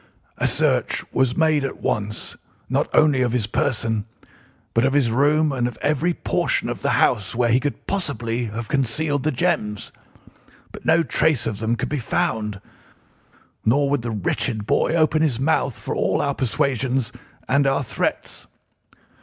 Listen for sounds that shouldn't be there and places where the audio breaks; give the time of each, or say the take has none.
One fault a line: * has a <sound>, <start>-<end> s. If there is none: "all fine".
all fine